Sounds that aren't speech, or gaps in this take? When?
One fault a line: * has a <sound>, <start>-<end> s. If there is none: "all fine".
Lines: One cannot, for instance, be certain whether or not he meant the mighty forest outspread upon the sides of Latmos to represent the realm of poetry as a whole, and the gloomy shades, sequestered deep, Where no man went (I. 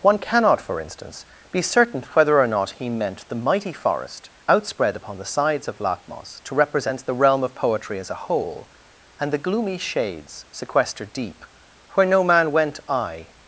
all fine